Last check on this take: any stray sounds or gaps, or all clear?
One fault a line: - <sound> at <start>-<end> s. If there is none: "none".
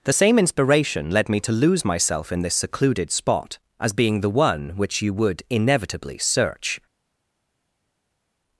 none